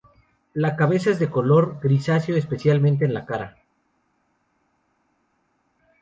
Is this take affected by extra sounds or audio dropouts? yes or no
no